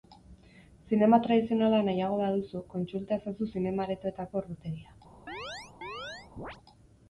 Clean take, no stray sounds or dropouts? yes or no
no